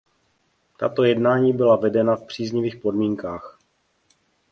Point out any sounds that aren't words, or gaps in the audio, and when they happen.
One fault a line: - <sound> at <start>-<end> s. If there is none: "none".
none